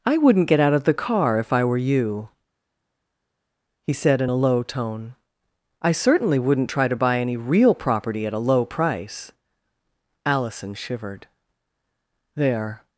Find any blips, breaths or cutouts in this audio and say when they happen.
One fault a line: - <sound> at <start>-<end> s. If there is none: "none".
none